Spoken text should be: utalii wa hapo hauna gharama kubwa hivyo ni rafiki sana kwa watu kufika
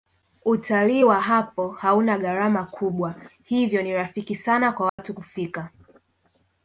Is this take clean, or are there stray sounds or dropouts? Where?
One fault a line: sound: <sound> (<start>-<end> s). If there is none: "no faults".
sound: dropout (4.9-5.0 s)